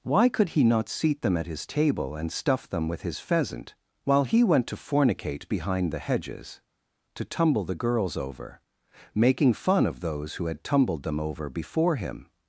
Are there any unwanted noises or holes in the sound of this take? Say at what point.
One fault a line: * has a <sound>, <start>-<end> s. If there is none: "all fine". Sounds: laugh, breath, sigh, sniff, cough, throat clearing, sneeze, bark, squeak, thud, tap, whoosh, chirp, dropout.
all fine